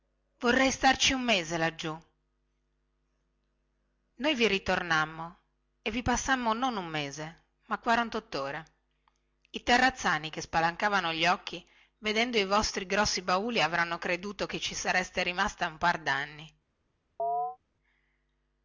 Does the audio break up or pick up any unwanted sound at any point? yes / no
yes